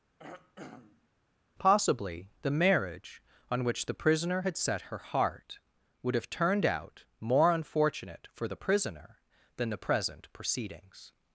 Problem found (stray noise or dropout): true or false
true